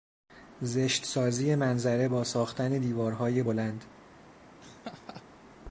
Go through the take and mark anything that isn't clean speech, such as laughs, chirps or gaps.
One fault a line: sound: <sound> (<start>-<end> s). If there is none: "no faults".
sound: laugh (4.6-5.2 s)